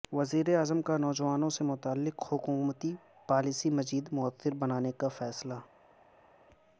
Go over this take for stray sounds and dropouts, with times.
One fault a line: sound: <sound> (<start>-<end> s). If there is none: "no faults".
no faults